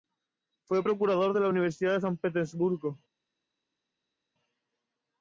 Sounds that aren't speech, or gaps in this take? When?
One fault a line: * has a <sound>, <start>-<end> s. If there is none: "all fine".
all fine